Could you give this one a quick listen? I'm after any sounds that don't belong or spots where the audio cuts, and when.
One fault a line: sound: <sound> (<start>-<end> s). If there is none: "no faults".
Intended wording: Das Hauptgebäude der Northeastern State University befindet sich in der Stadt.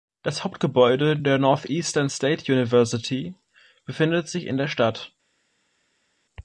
no faults